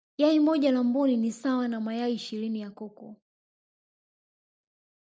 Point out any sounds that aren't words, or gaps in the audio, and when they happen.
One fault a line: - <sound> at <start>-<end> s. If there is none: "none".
none